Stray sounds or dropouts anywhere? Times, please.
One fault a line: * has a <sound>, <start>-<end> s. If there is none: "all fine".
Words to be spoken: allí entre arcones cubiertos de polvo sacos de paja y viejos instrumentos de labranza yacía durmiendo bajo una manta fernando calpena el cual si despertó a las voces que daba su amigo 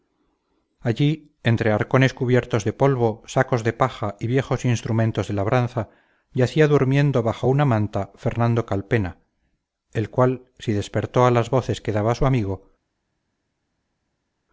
all fine